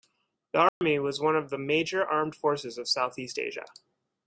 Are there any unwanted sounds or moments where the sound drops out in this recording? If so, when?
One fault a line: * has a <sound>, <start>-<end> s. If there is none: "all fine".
* has a dropout, 0.7-0.8 s